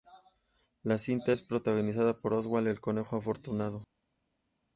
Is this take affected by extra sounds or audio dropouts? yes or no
no